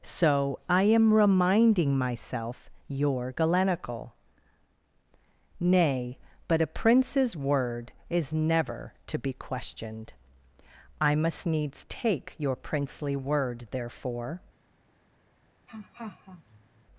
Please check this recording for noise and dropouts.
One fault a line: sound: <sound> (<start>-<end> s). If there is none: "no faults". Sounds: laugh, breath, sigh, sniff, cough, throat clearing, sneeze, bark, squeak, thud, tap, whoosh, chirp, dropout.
sound: laugh (15.7-16.8 s)